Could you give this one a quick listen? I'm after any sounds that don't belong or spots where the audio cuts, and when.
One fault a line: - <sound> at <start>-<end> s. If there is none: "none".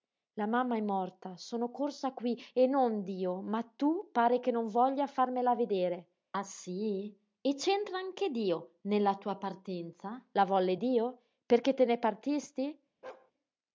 - bark at 13.0-13.3 s